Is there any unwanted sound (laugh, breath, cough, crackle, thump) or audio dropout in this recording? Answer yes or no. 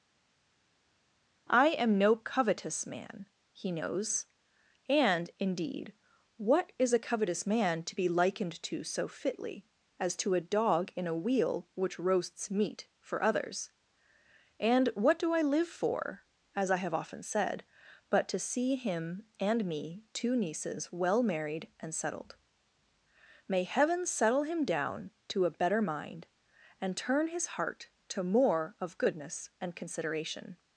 no